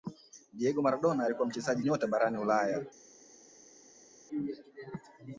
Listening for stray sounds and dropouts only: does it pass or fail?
pass